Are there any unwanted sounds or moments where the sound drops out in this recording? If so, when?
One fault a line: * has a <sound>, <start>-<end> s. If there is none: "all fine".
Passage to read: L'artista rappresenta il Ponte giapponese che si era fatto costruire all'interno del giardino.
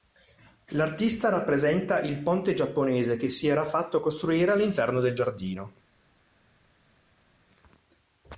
all fine